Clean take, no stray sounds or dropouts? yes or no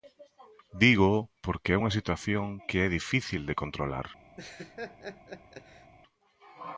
no